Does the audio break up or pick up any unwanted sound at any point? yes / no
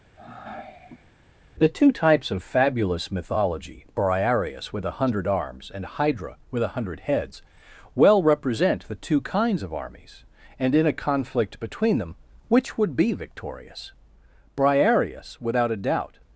yes